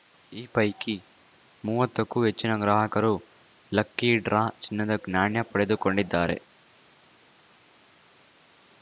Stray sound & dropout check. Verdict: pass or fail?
pass